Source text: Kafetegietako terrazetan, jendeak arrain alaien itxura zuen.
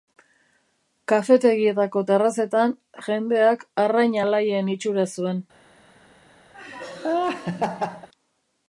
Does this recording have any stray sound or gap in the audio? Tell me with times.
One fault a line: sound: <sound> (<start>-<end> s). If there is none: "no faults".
sound: laugh (6.5-8.1 s)